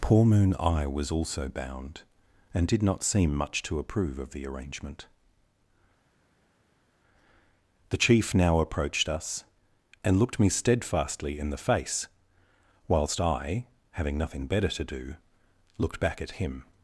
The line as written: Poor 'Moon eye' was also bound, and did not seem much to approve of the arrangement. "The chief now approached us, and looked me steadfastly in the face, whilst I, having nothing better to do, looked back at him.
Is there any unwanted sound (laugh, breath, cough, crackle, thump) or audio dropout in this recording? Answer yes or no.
no